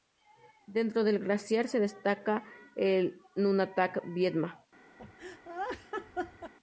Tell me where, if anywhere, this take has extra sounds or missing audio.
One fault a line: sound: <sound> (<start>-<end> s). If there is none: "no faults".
sound: laugh (5.0-6.5 s)